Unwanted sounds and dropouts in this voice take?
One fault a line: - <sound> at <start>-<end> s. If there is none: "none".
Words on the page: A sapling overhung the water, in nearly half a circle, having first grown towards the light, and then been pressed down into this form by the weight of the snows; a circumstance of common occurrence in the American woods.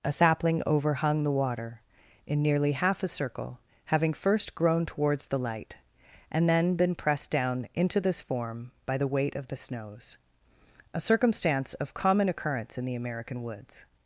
none